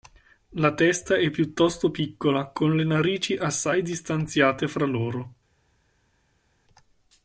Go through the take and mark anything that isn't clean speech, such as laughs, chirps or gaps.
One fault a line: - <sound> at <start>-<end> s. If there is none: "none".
none